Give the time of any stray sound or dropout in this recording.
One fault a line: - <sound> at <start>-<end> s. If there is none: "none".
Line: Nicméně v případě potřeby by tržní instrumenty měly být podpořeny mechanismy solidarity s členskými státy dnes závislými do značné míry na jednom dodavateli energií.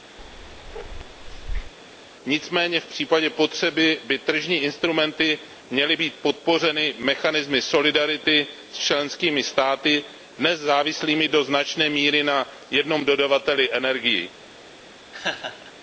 - bark at 0.2-1.7 s
- laugh at 15.1-15.7 s